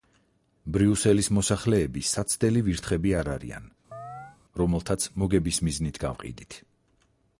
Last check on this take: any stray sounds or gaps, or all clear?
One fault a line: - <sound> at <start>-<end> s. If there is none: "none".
- chirp at 3.9-4.4 s